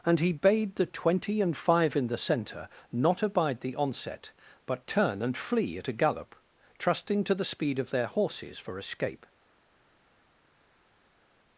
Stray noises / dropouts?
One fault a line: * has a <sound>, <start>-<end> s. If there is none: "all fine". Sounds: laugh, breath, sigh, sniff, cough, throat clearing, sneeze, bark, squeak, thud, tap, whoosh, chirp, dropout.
all fine